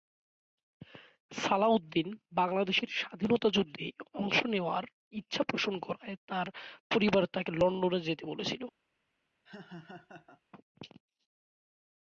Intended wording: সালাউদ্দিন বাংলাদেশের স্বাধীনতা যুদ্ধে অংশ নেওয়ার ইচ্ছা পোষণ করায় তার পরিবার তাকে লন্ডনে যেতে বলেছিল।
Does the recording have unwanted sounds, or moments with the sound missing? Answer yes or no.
yes